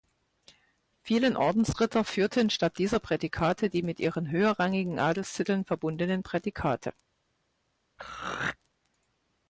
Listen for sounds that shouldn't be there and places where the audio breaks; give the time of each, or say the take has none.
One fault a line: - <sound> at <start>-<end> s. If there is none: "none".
- throat clearing at 8.0-8.6 s